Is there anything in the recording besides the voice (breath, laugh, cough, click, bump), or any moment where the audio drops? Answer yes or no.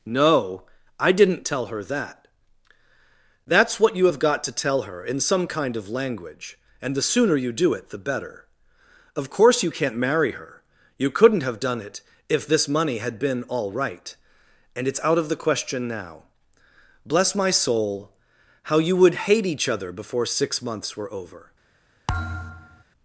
yes